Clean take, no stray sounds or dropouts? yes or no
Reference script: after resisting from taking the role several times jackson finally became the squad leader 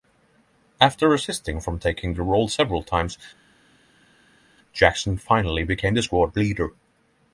yes